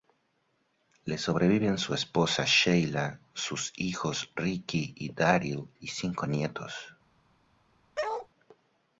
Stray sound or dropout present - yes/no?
yes